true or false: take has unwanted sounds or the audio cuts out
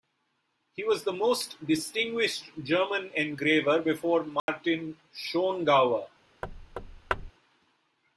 true